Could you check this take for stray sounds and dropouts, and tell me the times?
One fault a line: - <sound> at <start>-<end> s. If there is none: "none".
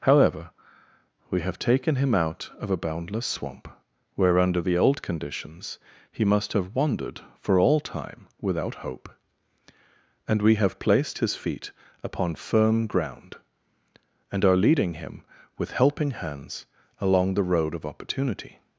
none